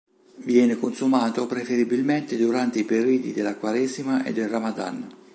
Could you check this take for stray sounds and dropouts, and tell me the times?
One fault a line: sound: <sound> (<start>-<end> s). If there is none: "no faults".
no faults